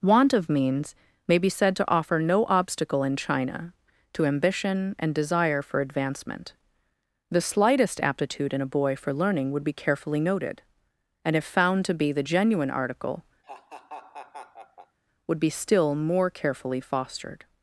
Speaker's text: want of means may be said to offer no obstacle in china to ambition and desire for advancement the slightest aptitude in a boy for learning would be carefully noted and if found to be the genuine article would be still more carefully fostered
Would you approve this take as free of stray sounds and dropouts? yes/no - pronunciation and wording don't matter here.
no